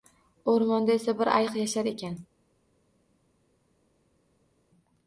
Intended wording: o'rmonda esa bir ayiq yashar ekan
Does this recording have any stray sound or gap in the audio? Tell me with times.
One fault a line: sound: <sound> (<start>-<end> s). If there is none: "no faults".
no faults